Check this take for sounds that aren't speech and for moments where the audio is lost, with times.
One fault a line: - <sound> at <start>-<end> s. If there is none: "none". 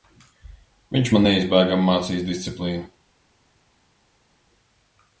none